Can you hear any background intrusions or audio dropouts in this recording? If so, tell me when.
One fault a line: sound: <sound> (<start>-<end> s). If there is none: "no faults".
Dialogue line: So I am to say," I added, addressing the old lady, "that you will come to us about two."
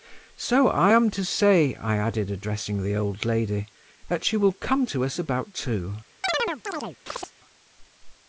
sound: chirp (6.2-7.3 s)